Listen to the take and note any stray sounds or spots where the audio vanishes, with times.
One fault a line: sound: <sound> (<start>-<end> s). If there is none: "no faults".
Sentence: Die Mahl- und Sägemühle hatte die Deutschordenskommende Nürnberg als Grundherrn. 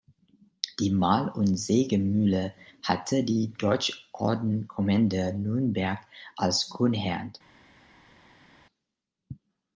no faults